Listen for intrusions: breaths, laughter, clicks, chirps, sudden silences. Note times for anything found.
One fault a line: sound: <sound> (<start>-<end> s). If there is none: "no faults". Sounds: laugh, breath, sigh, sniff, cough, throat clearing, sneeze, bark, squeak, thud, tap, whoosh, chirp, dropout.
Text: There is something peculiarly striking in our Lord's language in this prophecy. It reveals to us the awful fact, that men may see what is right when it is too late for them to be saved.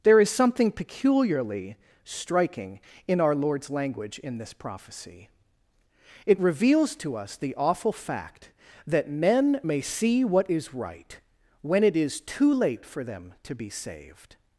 no faults